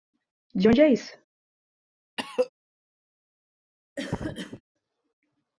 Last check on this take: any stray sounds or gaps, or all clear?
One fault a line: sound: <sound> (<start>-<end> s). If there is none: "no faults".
sound: cough (2.2-2.5 s)
sound: cough (4.0-4.6 s)